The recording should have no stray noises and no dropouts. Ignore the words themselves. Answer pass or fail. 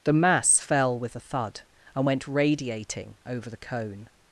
pass